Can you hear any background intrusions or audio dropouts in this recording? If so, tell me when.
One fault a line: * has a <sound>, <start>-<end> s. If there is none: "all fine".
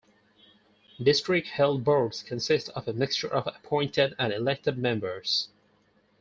all fine